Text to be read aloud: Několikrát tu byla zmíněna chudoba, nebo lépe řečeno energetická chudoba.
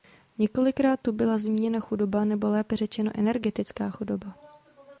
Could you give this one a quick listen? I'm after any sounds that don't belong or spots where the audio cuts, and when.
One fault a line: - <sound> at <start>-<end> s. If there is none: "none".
none